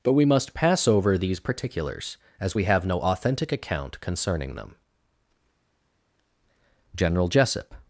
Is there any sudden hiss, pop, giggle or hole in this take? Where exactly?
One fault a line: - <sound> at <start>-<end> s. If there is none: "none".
none